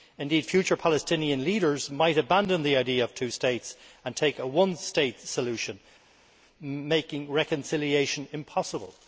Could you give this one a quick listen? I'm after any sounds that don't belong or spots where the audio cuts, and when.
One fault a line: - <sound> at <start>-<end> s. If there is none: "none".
none